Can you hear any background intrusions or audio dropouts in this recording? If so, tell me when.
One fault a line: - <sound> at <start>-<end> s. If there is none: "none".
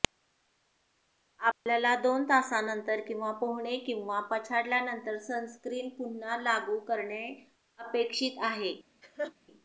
- dropout at 1.5-1.7 s
- laugh at 9.0-9.3 s